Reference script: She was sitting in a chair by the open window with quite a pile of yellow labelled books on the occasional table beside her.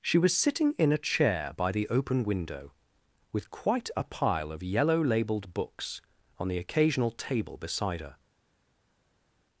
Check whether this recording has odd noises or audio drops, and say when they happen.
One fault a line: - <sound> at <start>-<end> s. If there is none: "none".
none